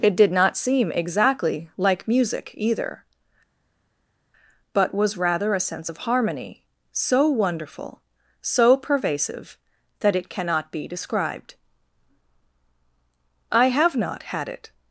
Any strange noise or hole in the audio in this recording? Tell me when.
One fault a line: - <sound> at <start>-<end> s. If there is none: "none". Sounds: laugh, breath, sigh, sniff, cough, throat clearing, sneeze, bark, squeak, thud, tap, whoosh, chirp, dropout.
none